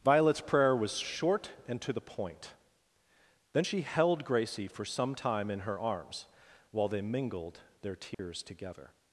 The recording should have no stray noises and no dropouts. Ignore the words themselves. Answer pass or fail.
fail